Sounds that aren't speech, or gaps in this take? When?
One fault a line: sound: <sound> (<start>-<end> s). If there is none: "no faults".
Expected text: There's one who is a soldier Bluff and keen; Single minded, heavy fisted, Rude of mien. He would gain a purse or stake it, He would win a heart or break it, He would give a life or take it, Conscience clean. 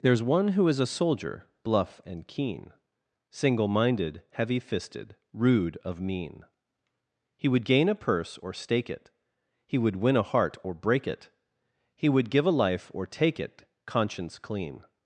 no faults